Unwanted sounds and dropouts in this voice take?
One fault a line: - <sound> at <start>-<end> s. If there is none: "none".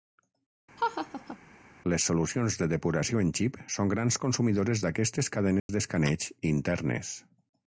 - laugh at 0.8-1.4 s
- dropout at 5.6-5.7 s